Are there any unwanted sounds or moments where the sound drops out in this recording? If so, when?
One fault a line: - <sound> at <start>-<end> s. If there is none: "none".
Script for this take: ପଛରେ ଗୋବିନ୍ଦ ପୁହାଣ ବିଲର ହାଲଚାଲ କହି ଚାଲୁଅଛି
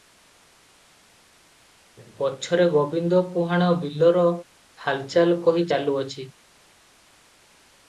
none